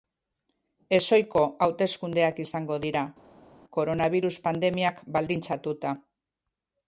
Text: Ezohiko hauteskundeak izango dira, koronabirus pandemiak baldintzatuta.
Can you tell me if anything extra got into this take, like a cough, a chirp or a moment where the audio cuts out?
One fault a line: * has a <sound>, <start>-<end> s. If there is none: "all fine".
all fine